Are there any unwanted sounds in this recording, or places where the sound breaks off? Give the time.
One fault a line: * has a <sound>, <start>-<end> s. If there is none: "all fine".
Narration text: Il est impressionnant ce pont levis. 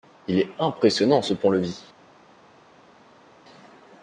all fine